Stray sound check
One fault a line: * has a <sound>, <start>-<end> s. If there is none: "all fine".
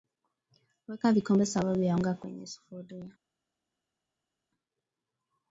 all fine